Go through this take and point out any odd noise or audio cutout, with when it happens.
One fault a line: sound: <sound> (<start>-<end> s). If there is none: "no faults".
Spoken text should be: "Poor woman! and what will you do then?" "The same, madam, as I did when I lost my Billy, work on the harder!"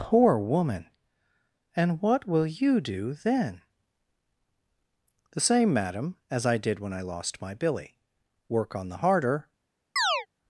sound: chirp (10.0-10.3 s)